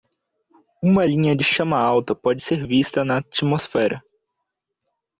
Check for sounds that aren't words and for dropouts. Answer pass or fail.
pass